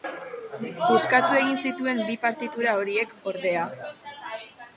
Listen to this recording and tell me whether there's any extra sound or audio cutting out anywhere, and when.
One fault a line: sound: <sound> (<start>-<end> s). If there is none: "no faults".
no faults